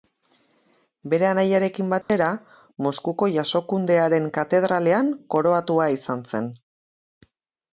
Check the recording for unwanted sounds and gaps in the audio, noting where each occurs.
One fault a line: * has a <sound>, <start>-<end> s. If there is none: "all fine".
* has a dropout, 2.0-2.1 s